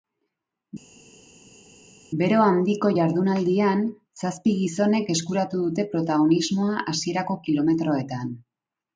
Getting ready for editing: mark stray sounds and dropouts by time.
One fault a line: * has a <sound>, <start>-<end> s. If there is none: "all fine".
all fine